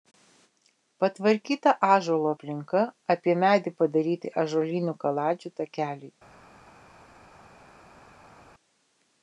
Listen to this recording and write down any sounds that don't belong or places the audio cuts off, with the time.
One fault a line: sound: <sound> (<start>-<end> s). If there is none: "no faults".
no faults